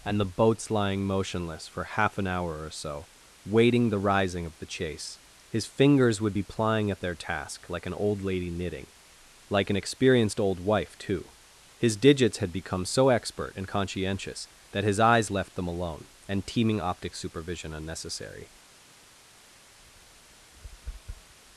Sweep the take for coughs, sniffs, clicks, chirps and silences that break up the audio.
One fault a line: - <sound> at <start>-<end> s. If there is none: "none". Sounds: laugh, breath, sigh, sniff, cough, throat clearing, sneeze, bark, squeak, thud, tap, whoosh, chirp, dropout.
- tap at 19.8-21.3 s